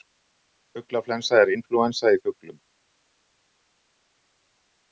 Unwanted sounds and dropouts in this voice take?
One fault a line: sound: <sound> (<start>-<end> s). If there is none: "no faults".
no faults